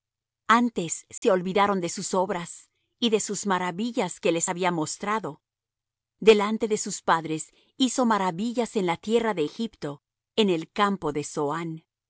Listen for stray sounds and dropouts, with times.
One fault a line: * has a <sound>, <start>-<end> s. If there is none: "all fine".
* has a dropout, 1.2-1.2 s